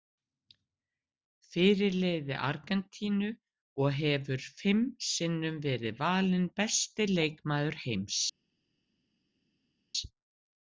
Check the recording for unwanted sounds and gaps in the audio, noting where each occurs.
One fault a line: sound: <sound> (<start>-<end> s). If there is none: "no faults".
no faults